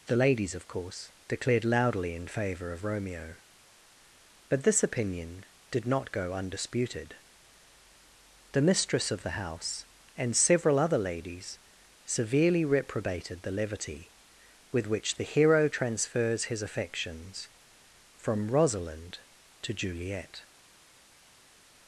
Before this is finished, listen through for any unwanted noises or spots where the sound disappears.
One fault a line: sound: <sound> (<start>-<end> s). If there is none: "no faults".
no faults